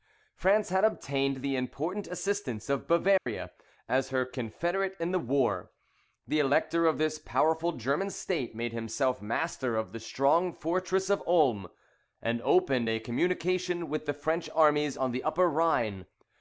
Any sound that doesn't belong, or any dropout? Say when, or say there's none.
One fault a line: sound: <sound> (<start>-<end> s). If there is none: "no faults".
sound: dropout (3.2-3.3 s)